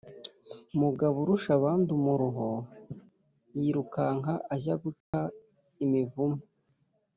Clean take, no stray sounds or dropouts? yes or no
no